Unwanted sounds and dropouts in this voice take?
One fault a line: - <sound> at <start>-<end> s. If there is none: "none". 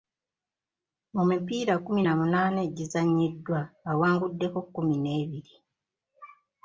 none